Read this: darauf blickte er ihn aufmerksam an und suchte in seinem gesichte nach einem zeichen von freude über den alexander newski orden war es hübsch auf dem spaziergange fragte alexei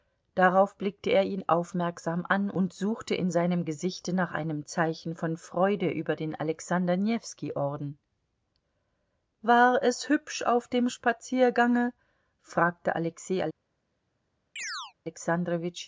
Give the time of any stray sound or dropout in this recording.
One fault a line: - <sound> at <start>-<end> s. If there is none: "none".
- chirp at 14.6-14.9 s